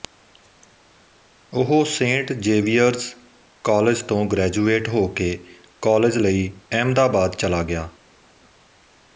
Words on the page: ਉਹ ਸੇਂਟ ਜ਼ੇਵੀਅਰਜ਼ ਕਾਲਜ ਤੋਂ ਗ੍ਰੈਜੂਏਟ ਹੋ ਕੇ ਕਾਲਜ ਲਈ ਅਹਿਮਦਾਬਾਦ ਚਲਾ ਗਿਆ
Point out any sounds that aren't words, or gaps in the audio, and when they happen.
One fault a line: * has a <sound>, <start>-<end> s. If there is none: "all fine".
all fine